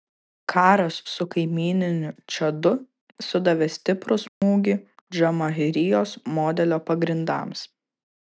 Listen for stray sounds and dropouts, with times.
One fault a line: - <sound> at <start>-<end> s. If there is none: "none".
- dropout at 4.3-4.4 s